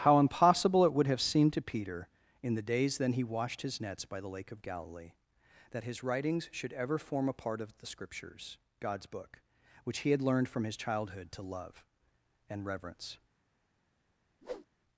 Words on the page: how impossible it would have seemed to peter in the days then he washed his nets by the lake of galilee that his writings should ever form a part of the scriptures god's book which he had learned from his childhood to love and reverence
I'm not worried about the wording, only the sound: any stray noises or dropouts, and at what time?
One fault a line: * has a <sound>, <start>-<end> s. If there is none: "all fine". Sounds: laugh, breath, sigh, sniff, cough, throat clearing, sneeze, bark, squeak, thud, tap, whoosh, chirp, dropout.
* has a whoosh, 14.4-14.7 s